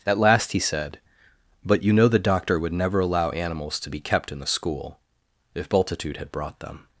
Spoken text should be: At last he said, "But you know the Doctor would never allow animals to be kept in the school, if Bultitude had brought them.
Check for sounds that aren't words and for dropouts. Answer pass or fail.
pass